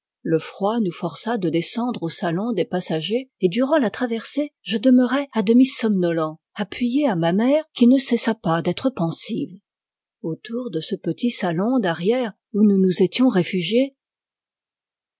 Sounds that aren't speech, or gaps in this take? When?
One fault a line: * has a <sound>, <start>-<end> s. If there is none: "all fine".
all fine